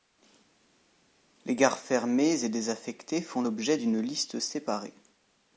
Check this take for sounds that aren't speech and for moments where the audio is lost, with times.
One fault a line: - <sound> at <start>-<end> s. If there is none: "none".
none